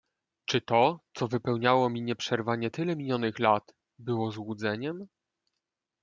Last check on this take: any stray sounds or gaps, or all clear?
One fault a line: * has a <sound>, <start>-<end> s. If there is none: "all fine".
all fine